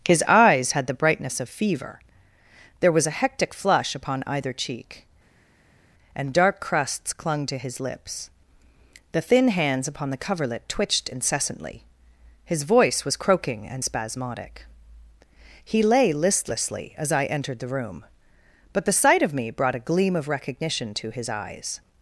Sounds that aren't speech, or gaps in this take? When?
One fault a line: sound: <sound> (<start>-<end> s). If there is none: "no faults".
no faults